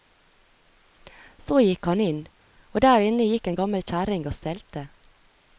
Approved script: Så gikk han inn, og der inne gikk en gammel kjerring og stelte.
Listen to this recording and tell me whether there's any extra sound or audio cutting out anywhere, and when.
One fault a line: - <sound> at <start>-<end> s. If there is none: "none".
none